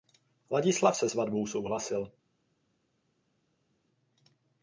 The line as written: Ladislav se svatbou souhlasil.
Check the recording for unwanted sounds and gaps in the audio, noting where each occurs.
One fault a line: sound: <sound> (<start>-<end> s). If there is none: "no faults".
no faults